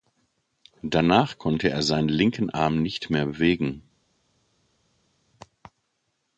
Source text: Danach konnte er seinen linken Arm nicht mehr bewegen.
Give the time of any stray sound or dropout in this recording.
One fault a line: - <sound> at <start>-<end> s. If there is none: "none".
none